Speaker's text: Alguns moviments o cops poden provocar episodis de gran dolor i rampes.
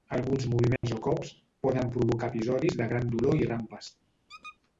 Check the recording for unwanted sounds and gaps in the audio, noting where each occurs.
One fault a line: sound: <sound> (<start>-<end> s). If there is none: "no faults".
sound: dropout (0.8-0.8 s)
sound: squeak (4.3-4.6 s)